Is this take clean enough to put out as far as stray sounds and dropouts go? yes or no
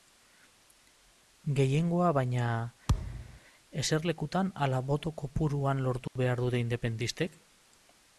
no